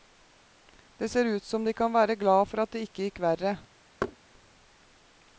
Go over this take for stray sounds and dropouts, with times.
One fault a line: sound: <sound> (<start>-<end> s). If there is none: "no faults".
sound: thud (4.0-4.2 s)